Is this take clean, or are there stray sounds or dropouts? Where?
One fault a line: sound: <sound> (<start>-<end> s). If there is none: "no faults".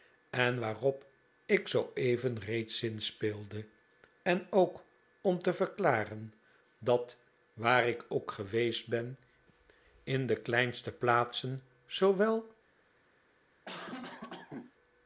sound: cough (13.7-14.7 s)